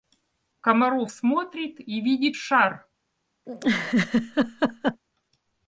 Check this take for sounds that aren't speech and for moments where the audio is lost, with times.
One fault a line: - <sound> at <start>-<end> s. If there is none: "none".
- laugh at 3.5-5.0 s